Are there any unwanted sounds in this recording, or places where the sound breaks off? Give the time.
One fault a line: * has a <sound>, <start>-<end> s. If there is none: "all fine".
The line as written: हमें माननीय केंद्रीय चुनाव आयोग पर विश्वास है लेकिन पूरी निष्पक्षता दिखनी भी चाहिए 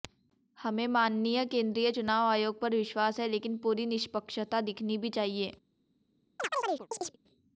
* has a chirp, 6.4-7.2 s